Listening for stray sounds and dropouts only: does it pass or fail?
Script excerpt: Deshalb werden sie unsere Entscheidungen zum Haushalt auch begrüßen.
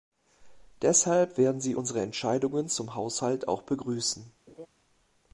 fail